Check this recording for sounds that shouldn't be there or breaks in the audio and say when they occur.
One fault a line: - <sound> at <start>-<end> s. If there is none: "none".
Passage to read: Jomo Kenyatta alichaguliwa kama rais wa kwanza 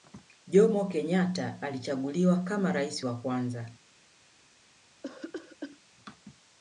- cough at 5.0-5.8 s